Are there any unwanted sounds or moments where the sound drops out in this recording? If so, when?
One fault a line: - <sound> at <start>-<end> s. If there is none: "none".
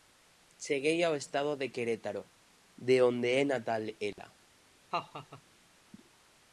- dropout at 4.1-4.2 s
- laugh at 4.9-5.4 s